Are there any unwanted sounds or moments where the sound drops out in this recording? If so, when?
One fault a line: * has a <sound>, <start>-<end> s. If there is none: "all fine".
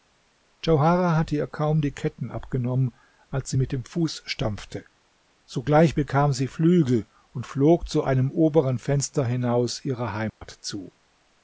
* has a dropout, 10.3-10.4 s